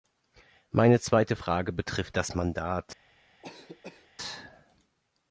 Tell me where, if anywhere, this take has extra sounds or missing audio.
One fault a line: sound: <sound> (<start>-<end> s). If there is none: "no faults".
sound: cough (3.4-4.1 s)